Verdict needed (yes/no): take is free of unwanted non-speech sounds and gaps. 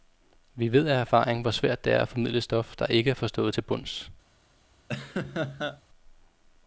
no